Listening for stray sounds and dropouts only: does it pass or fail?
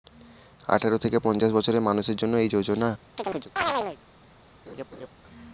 fail